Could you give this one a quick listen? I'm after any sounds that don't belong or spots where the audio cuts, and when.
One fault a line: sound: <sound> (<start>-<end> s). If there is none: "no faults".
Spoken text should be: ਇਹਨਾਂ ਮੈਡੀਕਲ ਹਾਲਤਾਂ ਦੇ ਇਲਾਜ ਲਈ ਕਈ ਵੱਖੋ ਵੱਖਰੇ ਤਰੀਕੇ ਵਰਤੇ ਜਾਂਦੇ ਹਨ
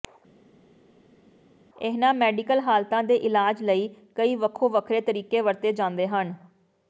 no faults